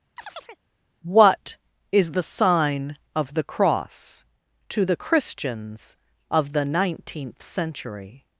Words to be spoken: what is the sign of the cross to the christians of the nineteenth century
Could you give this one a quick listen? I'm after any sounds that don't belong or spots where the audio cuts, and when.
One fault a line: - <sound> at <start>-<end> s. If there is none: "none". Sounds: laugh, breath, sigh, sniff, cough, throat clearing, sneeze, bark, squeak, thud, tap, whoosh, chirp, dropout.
- chirp at 0.2-0.6 s